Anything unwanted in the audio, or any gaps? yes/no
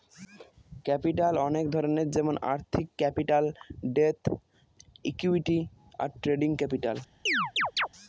yes